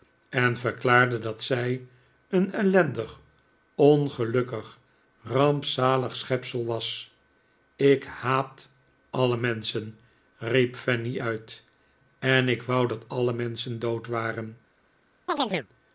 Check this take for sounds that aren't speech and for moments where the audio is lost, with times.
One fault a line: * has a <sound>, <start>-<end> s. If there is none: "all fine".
* has a chirp, 15.3-15.7 s